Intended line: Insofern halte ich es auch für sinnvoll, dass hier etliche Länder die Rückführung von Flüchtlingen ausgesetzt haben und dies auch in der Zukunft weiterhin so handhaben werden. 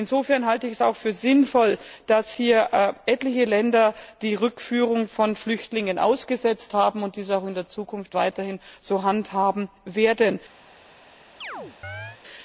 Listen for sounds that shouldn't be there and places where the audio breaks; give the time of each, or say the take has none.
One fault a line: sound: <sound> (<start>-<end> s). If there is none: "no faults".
sound: chirp (11.4-12.2 s)